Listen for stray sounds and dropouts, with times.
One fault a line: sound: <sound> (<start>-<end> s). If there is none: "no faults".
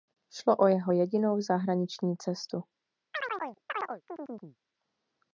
sound: chirp (3.1-4.6 s)